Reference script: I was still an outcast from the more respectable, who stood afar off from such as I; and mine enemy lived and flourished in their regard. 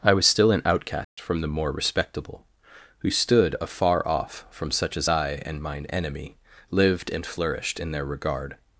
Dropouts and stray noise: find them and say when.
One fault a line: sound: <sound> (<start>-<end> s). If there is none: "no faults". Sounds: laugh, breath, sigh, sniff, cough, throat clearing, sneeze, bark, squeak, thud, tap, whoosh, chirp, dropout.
sound: dropout (1.0-1.2 s)